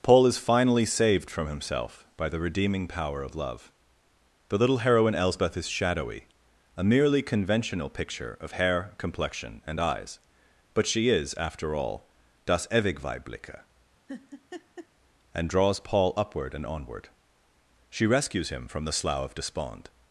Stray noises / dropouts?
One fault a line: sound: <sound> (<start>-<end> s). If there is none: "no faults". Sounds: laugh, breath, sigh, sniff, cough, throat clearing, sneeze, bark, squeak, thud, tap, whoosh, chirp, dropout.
sound: laugh (14.1-14.9 s)